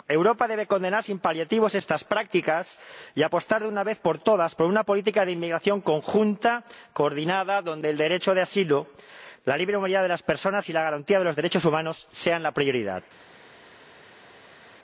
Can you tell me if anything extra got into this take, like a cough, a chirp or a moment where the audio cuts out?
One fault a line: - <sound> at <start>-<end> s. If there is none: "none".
none